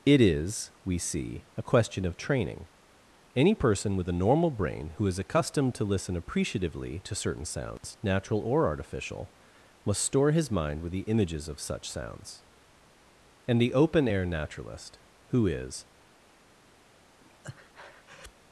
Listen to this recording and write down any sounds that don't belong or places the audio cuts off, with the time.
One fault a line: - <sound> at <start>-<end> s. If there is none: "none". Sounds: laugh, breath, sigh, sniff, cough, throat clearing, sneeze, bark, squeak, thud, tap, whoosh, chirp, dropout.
- dropout at 7.8-7.8 s
- breath at 17.2-18.3 s